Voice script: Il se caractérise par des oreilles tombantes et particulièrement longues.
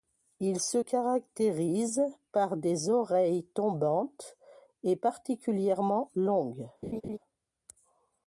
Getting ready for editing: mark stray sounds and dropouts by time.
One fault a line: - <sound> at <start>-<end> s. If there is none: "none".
- laugh at 6.8-7.2 s